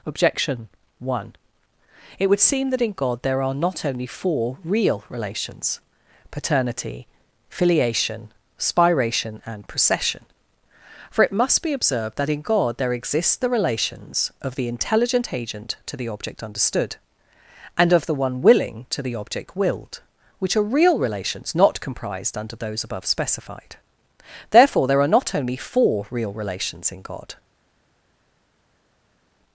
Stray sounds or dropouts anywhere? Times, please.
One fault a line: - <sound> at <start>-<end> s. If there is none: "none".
none